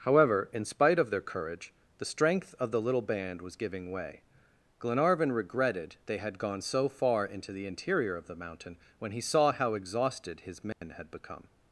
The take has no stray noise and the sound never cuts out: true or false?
false